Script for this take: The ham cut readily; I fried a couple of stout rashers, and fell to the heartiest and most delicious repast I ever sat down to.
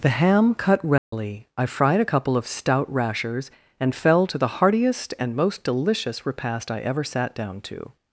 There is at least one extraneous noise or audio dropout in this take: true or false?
true